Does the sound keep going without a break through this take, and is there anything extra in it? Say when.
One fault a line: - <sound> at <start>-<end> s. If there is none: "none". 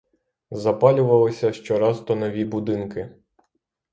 none